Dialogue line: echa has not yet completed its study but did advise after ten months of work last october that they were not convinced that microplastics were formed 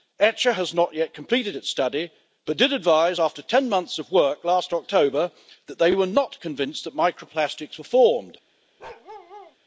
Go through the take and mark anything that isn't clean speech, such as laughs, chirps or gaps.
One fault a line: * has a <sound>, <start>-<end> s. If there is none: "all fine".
* has a bark, 8.8-9.6 s